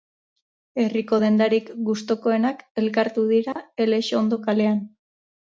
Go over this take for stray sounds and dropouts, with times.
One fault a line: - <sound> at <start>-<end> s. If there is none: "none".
- dropout at 3.5-3.6 s